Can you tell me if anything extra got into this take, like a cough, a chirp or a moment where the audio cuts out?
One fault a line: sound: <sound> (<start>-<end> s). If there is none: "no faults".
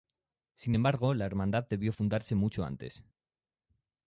no faults